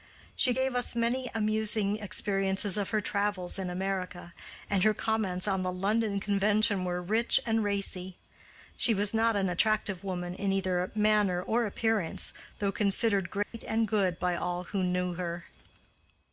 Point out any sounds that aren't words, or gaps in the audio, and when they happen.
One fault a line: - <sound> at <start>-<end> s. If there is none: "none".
- dropout at 13.4-13.5 s